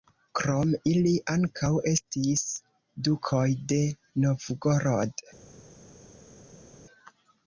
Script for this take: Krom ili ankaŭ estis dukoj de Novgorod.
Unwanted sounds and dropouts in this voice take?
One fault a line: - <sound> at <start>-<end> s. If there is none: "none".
none